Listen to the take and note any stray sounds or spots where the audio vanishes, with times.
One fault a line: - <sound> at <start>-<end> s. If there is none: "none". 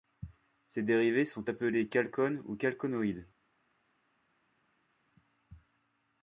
none